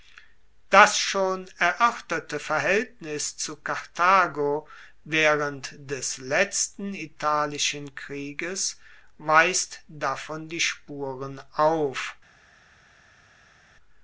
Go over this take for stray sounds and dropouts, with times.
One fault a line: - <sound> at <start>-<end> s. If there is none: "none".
none